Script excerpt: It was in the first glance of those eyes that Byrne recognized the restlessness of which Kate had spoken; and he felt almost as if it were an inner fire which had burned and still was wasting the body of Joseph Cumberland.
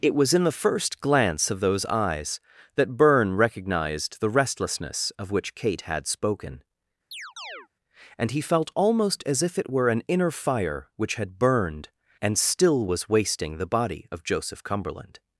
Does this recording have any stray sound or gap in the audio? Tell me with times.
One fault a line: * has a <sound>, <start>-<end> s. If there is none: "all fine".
* has a chirp, 7.1-7.7 s